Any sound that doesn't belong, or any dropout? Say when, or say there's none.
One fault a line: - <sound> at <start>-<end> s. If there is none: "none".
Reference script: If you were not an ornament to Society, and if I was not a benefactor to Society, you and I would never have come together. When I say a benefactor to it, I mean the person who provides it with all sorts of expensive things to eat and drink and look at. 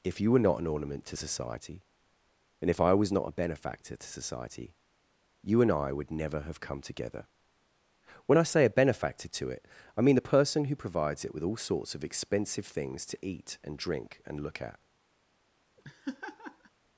- laugh at 15.8-16.7 s